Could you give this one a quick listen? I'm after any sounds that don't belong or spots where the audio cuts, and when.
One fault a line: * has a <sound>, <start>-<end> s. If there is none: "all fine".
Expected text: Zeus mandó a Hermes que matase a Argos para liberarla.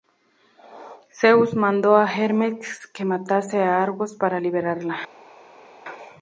all fine